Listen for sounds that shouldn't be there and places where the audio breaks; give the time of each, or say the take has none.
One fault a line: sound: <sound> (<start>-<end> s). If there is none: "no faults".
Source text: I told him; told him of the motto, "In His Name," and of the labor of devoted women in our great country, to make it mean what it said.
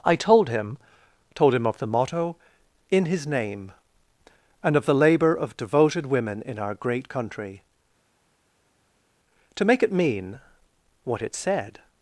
no faults